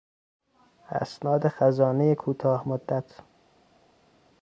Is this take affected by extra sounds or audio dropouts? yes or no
no